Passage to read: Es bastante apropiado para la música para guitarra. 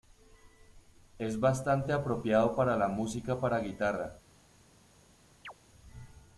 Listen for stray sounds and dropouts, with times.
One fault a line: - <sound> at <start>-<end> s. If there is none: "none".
- chirp at 5.4-5.5 s